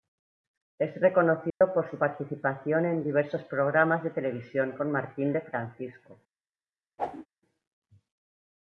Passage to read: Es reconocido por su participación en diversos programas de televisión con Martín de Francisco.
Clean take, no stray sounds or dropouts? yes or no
no